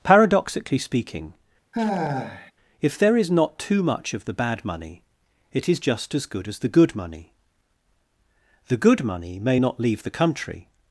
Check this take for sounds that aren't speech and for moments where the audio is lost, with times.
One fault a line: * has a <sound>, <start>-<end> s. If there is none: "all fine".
* has a sigh, 1.7-2.5 s